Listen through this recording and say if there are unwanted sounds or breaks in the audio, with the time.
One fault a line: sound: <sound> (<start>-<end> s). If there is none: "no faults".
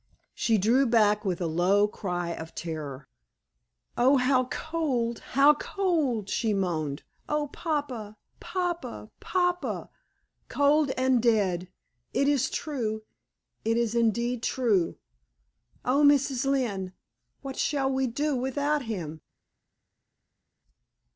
no faults